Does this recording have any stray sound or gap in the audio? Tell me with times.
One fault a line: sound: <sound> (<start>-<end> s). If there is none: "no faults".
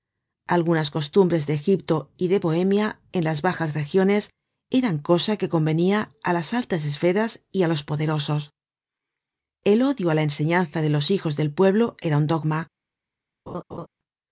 sound: laugh (13.5-13.9 s)